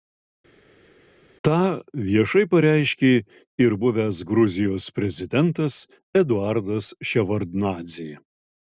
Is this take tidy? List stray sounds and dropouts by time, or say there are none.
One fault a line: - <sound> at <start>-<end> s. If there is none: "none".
none